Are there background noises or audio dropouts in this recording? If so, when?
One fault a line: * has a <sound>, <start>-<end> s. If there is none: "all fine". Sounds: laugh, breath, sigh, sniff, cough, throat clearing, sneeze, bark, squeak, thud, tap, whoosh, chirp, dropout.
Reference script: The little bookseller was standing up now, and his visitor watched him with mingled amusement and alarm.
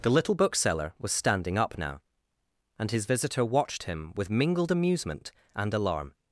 all fine